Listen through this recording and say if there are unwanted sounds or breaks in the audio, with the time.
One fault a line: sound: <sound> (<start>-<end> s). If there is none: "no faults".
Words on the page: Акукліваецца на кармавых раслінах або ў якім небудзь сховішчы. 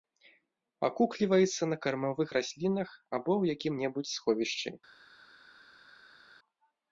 no faults